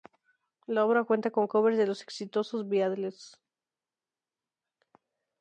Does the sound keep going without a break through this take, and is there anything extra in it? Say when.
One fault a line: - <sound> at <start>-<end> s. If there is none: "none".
none